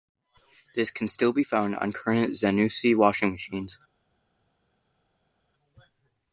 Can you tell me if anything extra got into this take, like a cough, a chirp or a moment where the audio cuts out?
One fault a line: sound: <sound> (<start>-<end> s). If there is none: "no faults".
no faults